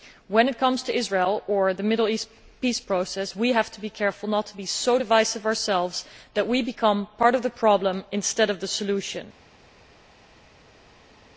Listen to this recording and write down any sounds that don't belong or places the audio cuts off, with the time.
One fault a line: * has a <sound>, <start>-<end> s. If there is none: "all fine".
all fine